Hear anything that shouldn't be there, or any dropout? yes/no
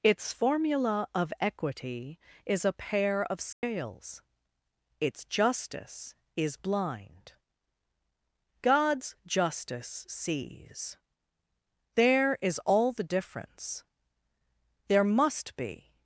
yes